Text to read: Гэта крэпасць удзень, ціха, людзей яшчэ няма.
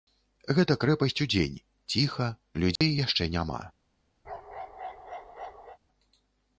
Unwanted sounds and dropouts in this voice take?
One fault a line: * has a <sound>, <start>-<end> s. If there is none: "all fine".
* has a dropout, 2.8-2.8 s
* has a bark, 4.2-5.8 s